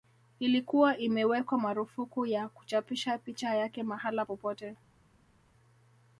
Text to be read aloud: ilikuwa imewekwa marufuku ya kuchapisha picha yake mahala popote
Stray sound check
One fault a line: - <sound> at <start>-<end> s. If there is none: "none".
none